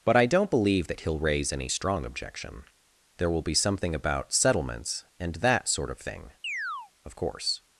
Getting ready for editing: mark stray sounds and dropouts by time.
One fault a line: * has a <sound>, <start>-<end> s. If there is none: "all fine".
* has a chirp, 6.4-6.9 s